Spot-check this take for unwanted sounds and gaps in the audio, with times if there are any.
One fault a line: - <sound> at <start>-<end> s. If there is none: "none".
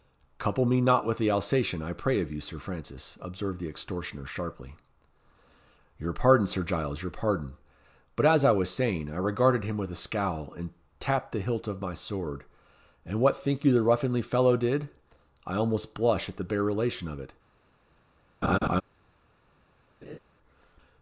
- laugh at 18.4-18.8 s
- laugh at 20.0-20.2 s